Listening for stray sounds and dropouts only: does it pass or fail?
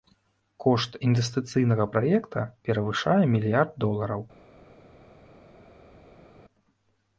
pass